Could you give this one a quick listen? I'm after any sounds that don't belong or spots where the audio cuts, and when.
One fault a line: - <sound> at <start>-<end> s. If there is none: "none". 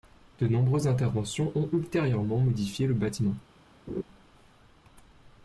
- laugh at 3.9-4.0 s